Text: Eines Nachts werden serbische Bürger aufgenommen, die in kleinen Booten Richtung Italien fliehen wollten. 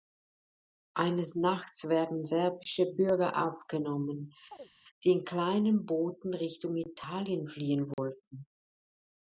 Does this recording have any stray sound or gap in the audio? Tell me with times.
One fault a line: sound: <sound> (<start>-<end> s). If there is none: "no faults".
sound: chirp (4.5-4.7 s)
sound: dropout (7.9-8.0 s)